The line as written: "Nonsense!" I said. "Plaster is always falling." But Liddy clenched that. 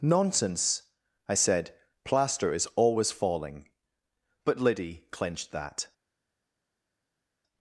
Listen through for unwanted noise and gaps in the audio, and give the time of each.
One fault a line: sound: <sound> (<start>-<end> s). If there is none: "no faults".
no faults